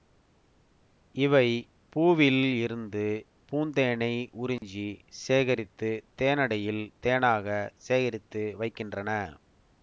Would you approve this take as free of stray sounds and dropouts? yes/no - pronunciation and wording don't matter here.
no